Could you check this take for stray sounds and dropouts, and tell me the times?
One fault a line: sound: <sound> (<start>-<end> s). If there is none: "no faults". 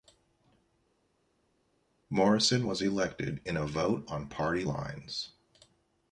no faults